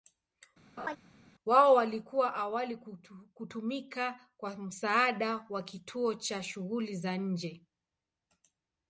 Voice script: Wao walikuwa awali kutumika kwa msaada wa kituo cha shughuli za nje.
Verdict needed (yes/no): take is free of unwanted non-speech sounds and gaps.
no